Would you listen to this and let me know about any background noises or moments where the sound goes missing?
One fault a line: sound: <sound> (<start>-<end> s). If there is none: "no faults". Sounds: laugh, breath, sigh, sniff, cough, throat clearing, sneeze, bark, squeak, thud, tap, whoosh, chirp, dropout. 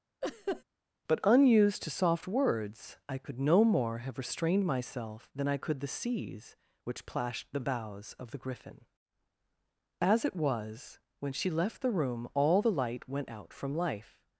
sound: laugh (0.2-0.6 s)